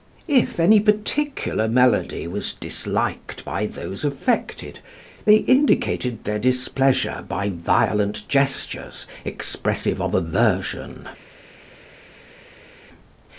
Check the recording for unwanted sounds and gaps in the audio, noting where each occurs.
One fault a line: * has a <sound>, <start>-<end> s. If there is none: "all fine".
all fine